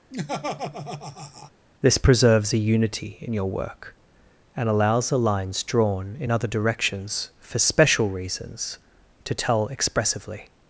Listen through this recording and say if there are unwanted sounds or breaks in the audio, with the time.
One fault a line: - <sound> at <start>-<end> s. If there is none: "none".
- laugh at 0.1-1.5 s